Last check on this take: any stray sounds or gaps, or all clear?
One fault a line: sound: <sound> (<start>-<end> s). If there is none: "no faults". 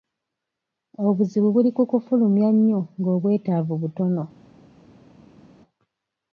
no faults